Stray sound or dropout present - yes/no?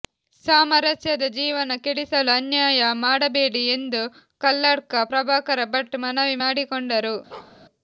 yes